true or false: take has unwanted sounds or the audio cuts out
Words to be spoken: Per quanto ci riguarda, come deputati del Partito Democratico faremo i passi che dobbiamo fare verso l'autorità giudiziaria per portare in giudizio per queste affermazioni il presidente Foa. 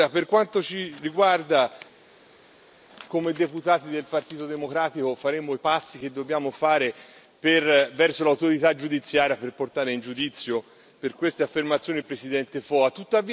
false